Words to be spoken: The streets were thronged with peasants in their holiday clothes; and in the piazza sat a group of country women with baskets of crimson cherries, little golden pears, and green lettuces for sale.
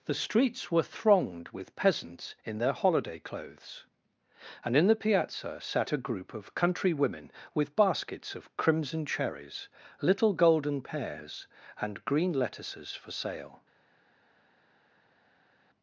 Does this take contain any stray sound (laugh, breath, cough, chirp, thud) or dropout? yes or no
no